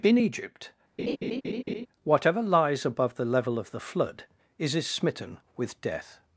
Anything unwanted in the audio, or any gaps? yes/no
yes